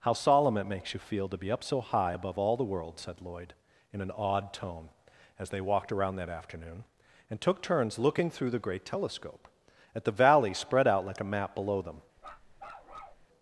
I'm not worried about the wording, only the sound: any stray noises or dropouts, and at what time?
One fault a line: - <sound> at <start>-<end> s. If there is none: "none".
- bark at 12.2-13.3 s